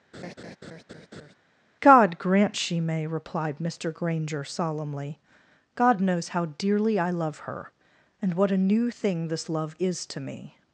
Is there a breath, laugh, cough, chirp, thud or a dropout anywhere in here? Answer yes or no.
yes